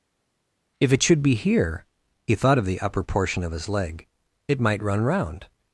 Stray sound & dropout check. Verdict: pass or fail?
pass